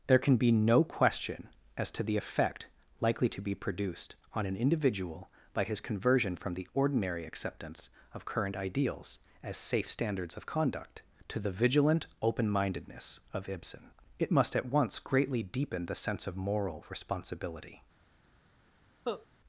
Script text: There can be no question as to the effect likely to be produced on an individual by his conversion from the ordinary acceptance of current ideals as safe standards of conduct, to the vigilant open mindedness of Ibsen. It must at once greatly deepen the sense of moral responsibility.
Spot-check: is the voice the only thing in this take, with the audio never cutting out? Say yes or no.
no